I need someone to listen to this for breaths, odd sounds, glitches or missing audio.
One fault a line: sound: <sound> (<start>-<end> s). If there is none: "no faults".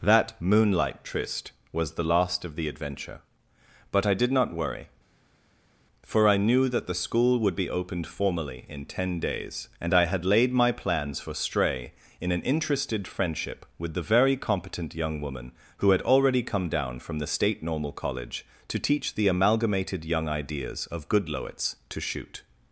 no faults